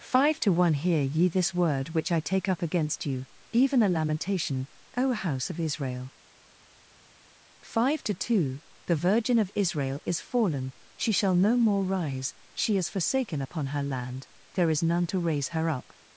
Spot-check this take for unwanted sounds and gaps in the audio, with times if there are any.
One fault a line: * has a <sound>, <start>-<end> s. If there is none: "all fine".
all fine